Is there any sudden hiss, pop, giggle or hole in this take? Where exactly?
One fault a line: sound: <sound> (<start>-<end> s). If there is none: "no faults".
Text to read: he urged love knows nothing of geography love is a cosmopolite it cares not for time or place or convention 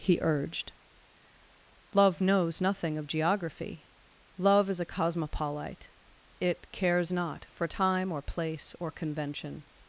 no faults